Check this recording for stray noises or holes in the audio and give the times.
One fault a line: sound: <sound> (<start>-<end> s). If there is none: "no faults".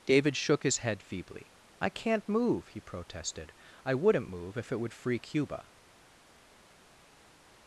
no faults